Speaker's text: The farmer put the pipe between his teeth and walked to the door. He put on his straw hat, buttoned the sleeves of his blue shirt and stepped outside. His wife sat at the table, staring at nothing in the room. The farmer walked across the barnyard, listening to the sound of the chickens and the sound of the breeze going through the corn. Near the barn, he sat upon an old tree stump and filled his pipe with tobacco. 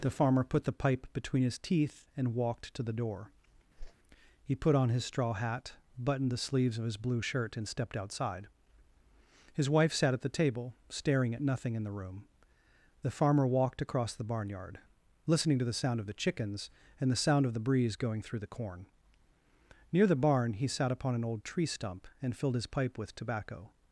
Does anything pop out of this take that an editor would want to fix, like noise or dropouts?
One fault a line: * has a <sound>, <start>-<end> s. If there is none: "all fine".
* has a whoosh, 3.8-3.9 s